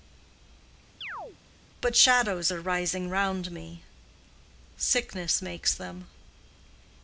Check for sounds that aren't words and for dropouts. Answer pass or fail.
fail